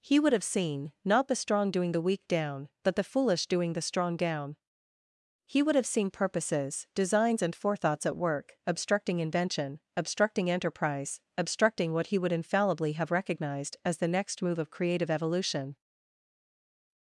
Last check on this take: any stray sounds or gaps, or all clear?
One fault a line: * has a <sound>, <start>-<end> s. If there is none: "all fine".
all fine